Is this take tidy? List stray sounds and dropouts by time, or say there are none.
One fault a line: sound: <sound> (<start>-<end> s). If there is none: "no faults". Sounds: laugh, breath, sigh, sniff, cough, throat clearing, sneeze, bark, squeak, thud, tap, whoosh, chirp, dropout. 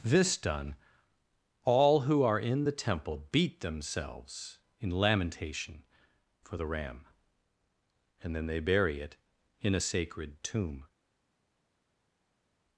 no faults